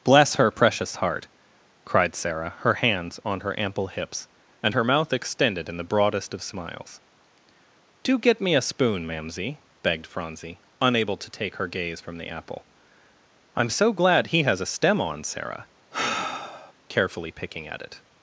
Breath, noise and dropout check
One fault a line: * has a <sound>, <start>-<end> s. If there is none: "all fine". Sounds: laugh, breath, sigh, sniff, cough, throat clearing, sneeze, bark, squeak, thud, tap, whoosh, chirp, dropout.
* has a sigh, 15.9-16.7 s